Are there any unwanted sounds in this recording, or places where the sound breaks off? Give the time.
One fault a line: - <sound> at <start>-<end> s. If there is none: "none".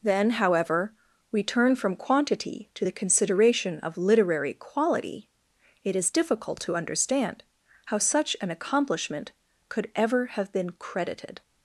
none